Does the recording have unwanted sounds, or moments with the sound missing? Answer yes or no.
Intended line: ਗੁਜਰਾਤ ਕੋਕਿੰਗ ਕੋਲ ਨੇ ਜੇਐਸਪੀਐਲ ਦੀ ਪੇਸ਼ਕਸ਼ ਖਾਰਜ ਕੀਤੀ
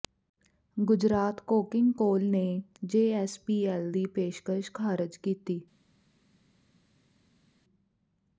no